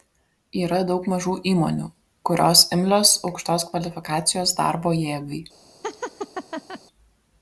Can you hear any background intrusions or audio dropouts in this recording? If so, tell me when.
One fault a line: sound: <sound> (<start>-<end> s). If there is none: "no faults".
sound: laugh (5.8-6.8 s)